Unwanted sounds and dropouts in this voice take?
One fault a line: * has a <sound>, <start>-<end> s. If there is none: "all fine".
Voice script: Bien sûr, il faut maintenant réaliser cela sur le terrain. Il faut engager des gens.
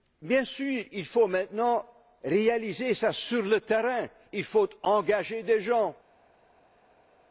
all fine